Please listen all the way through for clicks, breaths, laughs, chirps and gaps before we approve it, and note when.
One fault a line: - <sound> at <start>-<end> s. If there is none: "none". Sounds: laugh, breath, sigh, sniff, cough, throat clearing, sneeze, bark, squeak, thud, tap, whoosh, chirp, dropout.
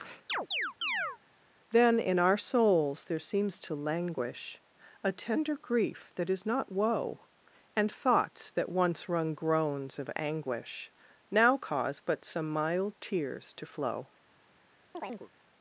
- chirp at 0.3-1.2 s
- chirp at 14.9-15.3 s